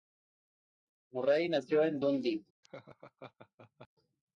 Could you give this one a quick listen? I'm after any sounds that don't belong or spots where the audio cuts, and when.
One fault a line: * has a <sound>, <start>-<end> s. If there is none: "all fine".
* has a laugh, 2.6-3.9 s